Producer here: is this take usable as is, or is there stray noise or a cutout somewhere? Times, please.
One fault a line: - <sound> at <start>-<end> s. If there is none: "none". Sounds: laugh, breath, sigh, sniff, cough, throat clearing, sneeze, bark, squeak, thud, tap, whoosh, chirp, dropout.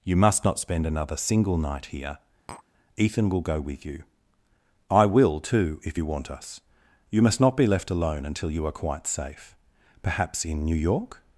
- tap at 2.5-2.6 s